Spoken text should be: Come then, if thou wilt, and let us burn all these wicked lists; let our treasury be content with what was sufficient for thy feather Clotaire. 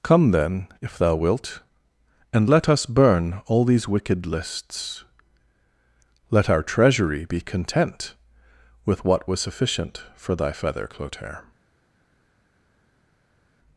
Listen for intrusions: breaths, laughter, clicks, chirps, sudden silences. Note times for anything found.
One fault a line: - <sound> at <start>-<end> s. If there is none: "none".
none